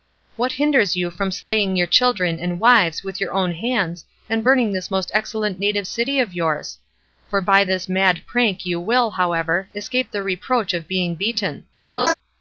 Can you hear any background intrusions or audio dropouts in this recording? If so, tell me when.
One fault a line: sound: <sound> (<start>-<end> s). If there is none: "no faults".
sound: dropout (1.4-1.5 s)
sound: laugh (12.0-12.1 s)